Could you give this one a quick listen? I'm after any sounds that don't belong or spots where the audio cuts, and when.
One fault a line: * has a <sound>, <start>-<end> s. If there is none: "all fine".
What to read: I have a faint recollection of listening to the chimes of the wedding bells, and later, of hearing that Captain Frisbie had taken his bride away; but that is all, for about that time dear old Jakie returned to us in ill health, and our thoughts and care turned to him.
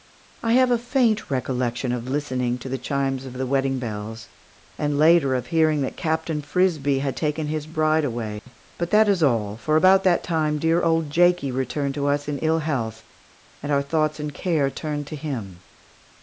* has a dropout, 8.4-8.5 s